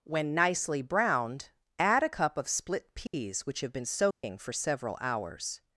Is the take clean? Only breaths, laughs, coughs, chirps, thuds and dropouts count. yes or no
no